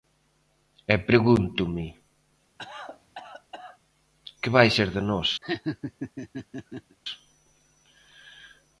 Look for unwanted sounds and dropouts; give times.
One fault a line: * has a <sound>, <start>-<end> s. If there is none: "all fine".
* has a cough, 2.6-3.8 s
* has a laugh, 5.4-7.0 s